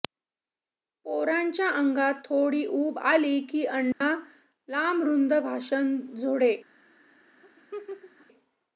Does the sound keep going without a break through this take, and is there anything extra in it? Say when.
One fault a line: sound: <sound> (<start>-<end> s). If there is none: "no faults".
sound: dropout (3.9-4.0 s)
sound: laugh (7.4-8.3 s)